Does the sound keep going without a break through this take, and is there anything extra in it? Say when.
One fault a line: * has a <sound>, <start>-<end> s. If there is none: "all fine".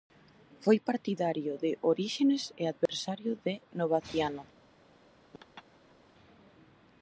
* has a dropout, 2.9-2.9 s
* has a laugh, 5.3-6.0 s